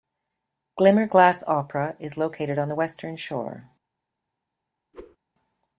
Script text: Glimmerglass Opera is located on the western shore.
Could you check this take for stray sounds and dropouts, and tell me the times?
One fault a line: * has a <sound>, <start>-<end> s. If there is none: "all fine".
* has a whoosh, 4.9-5.2 s